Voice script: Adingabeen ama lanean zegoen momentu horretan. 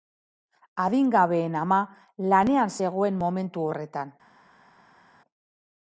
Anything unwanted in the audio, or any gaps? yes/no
no